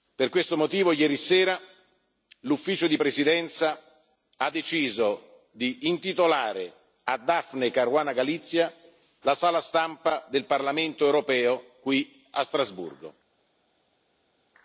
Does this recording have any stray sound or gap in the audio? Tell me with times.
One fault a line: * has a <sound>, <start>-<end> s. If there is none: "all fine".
all fine